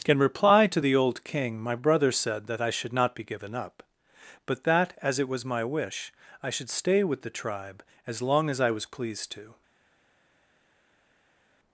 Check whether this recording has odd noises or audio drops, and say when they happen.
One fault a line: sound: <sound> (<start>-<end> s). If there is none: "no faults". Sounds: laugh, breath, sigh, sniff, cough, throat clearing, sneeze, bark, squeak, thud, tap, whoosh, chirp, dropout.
no faults